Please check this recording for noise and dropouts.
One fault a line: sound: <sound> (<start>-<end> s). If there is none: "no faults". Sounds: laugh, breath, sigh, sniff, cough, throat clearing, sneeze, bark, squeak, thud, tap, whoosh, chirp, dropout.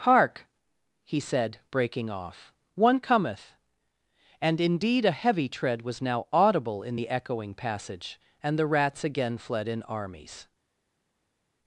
no faults